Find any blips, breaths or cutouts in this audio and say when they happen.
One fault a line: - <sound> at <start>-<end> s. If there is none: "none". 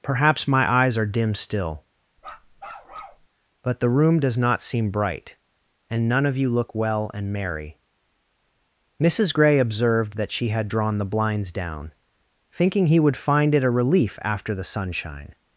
- bark at 2.2-3.3 s